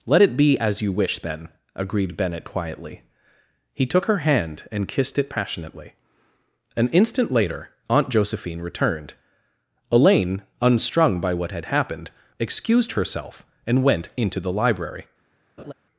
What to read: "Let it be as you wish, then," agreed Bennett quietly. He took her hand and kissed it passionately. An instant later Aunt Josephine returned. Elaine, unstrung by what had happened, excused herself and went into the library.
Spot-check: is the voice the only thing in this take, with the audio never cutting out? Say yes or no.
no